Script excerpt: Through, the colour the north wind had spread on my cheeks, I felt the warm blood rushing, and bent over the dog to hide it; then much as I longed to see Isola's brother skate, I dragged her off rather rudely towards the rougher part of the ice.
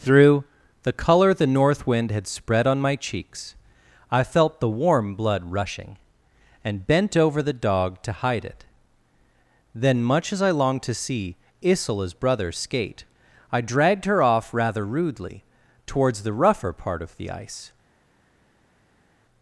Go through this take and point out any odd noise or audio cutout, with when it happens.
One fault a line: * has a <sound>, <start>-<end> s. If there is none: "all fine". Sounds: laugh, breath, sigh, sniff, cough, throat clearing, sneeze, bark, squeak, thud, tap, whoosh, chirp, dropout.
all fine